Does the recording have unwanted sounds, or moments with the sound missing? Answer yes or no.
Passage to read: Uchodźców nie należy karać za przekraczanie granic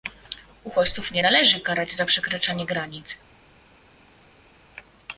no